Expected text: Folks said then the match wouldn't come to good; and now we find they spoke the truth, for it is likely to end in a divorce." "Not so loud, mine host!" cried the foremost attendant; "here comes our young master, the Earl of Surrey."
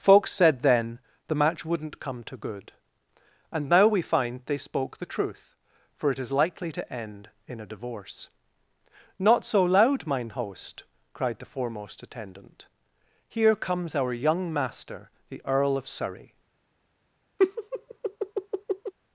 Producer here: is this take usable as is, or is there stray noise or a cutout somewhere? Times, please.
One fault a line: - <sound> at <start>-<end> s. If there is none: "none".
- laugh at 17.4-18.9 s